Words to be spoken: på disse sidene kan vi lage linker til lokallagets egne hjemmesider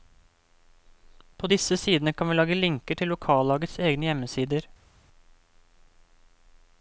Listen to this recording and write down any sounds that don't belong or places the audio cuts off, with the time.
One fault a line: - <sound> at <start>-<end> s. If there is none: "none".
none